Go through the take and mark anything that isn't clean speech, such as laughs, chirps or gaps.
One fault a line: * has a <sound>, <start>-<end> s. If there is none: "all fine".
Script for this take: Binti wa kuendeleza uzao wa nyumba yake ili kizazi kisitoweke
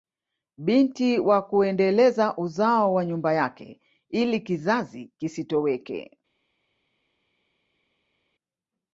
all fine